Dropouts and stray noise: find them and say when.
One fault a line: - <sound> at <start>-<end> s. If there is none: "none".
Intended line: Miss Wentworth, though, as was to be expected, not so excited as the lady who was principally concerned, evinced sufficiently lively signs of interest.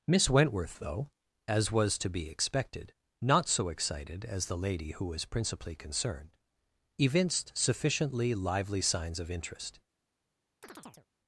- chirp at 10.6-11.1 s